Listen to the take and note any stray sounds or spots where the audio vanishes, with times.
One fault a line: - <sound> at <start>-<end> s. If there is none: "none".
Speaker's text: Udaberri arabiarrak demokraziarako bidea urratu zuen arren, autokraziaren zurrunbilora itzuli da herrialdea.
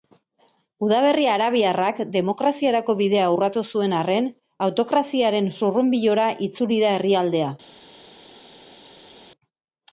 none